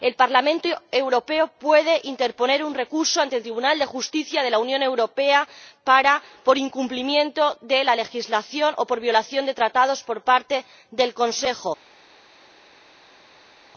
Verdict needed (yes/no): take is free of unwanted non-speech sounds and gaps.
yes